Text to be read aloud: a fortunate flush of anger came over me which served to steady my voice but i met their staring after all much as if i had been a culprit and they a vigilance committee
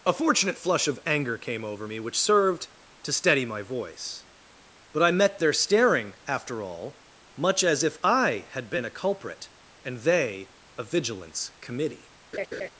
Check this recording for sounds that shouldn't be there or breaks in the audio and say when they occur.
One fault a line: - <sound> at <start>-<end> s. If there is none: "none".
- laugh at 12.3-12.7 s